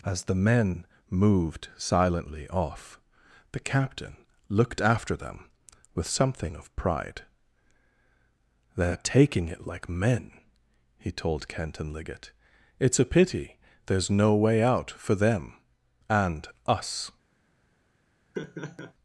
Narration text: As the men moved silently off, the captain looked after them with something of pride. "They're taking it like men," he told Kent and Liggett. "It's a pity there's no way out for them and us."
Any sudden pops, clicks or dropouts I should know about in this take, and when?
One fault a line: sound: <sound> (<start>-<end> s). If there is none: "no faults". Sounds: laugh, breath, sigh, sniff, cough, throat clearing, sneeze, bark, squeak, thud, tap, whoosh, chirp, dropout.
sound: laugh (18.3-18.9 s)